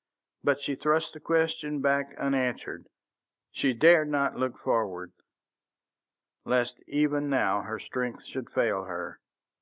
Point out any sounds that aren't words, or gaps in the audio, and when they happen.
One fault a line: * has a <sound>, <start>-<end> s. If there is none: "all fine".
all fine